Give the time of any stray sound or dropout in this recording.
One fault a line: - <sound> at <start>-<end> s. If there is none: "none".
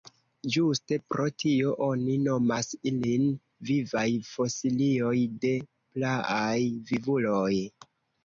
none